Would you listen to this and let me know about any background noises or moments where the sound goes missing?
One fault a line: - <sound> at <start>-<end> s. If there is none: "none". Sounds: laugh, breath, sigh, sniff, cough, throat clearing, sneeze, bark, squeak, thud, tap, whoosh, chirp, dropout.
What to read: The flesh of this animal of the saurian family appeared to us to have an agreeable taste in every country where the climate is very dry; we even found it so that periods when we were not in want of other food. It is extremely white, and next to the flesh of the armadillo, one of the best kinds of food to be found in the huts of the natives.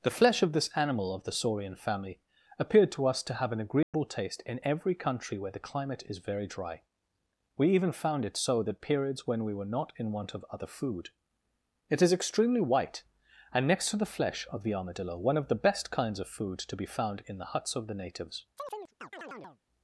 - dropout at 3.8-3.9 s
- chirp at 18.6-19.6 s